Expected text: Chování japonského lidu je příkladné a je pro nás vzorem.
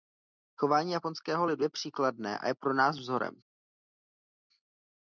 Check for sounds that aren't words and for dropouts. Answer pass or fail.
pass